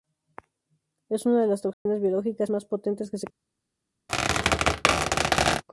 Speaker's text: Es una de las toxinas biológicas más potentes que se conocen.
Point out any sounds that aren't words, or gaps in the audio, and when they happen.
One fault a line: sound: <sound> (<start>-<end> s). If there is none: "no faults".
sound: dropout (1.7-1.9 s)
sound: squeak (4.1-5.6 s)